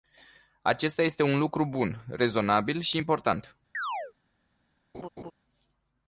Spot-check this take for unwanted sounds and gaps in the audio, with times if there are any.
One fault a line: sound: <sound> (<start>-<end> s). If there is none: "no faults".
sound: chirp (3.7-4.1 s)
sound: laugh (4.9-5.3 s)